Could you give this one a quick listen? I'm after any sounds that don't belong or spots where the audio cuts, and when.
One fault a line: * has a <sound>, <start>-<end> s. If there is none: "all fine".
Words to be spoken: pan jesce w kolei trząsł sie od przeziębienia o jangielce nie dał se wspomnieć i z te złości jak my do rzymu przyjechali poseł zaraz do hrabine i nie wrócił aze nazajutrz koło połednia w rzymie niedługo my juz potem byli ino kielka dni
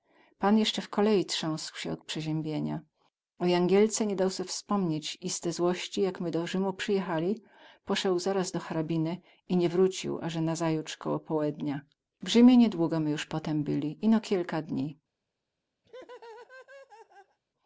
* has a laugh, 15.8-17.4 s